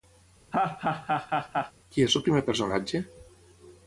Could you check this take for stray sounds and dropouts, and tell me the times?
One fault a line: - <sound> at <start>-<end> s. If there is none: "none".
- laugh at 0.5-1.7 s